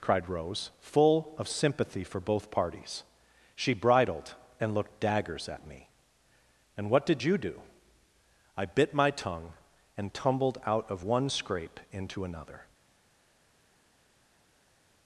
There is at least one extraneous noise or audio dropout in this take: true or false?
false